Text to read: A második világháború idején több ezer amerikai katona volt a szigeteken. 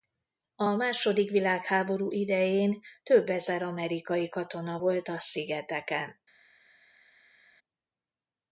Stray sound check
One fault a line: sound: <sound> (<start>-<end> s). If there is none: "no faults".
no faults